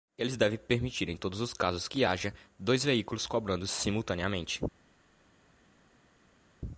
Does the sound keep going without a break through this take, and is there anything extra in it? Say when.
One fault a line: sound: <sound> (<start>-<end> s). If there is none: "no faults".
no faults